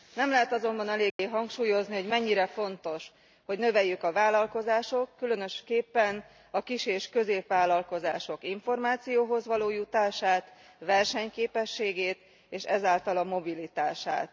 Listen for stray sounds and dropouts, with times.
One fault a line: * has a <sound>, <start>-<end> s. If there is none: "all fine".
* has a dropout, 1.1-1.2 s